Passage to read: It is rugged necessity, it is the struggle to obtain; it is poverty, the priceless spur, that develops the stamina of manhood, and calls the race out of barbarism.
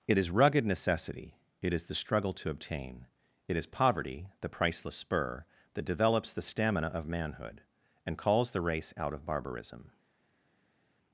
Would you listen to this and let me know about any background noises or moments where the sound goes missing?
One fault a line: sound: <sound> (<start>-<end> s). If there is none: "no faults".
no faults